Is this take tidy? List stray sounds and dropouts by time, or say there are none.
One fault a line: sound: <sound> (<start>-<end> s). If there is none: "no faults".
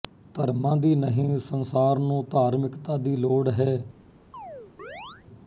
sound: chirp (4.3-5.3 s)